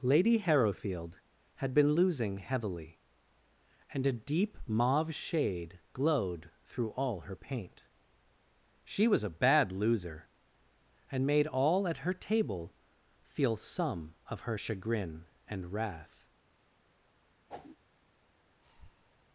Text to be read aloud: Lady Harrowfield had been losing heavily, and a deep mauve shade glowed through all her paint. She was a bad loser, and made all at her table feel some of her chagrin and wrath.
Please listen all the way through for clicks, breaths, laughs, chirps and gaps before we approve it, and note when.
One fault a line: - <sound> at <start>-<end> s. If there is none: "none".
- whoosh at 17.5-17.8 s
- breath at 18.6-19.2 s